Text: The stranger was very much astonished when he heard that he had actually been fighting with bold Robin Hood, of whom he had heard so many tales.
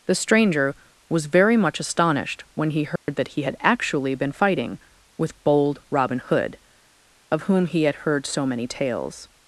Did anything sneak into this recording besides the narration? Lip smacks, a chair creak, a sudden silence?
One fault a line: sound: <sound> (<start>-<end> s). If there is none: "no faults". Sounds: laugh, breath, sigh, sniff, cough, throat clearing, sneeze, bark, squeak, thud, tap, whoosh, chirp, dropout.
sound: dropout (3.0-3.1 s)